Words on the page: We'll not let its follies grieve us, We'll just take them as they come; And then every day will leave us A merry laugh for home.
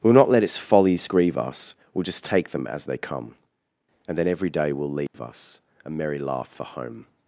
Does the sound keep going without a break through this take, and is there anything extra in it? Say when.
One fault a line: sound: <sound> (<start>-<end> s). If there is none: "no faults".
sound: dropout (5.1-5.1 s)